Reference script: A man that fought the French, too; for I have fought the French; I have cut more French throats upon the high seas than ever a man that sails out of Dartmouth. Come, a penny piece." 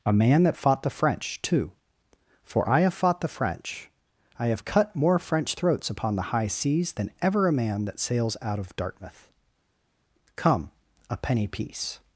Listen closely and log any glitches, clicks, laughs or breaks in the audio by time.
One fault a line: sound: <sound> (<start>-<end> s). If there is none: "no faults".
no faults